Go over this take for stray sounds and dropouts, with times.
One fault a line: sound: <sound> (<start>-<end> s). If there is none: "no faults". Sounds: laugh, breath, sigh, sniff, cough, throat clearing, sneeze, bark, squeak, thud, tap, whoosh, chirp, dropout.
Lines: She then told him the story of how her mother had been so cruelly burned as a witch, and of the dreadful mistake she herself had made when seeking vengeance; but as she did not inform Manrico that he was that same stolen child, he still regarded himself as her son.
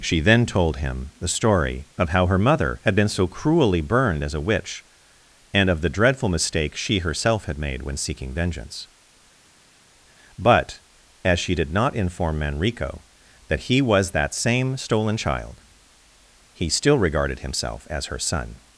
no faults